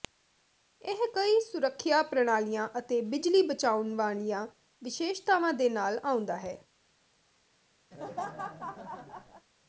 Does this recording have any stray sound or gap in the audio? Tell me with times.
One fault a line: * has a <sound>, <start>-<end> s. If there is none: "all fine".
* has a laugh, 7.9-9.5 s